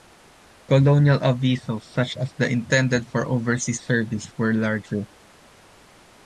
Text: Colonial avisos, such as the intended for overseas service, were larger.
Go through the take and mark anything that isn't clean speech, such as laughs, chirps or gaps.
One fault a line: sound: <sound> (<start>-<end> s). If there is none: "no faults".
no faults